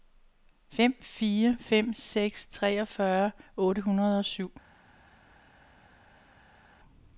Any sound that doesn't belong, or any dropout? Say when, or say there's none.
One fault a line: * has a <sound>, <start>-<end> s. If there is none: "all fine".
all fine